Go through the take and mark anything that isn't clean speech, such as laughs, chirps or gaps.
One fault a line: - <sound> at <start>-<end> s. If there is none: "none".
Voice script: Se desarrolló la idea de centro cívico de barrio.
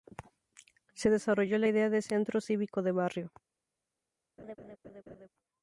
- laugh at 4.4-5.3 s